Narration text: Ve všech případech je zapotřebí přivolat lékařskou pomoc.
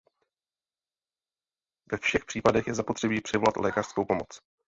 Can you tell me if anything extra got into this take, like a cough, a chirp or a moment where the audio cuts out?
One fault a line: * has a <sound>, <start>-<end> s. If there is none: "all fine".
all fine